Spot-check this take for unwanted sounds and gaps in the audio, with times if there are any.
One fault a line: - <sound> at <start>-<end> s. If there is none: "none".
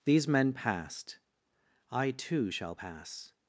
none